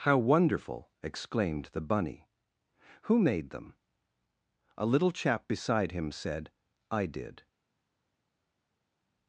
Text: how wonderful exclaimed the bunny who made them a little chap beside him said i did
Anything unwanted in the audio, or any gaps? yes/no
no